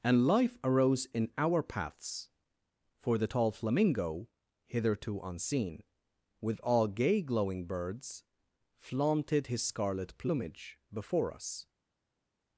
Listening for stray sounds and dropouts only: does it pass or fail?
pass